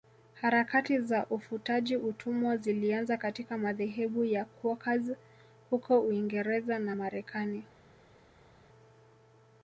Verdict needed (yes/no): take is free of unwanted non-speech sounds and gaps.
yes